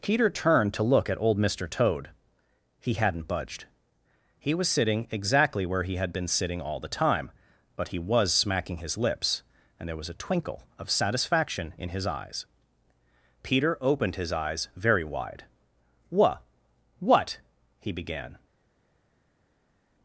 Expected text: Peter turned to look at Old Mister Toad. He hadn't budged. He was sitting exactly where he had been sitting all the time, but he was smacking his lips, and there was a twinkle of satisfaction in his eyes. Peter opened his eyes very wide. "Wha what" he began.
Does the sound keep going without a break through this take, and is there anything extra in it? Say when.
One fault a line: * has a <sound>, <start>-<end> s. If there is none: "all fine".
all fine